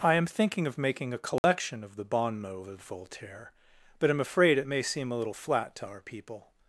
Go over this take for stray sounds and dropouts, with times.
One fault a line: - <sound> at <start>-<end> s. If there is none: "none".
- dropout at 1.4-1.4 s